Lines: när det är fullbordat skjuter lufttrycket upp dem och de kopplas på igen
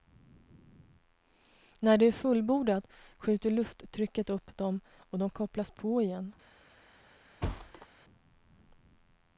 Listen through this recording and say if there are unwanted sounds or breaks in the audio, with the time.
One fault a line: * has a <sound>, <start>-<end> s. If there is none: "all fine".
* has a thud, 7.4-7.9 s